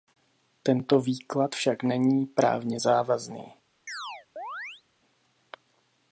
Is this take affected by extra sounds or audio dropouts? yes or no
yes